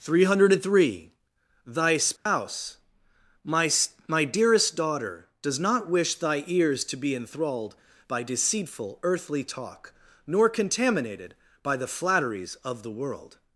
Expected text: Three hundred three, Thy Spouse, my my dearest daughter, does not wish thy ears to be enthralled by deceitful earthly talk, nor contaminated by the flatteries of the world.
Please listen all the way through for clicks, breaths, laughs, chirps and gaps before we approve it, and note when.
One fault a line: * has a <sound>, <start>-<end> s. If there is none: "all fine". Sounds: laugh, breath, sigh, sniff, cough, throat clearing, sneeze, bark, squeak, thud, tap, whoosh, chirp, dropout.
* has a dropout, 2.2-2.3 s